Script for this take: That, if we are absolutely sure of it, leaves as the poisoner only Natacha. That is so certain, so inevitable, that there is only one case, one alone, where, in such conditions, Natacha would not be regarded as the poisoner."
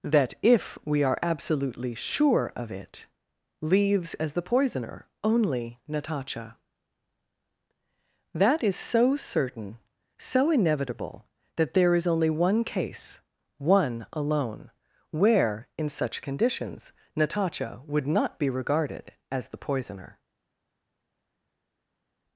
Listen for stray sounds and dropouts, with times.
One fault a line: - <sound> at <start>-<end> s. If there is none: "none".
none